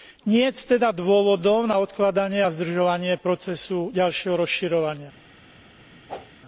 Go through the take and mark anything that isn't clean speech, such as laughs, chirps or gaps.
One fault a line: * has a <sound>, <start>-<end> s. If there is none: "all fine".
* has a whoosh, 6.1-6.3 s